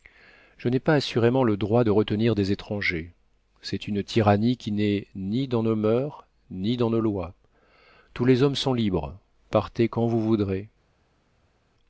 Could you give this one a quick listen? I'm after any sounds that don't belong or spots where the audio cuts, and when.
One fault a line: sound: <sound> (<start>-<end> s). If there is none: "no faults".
no faults